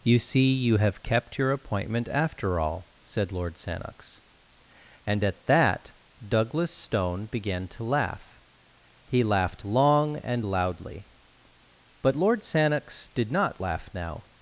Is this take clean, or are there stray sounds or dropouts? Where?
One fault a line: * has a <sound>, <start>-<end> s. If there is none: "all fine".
all fine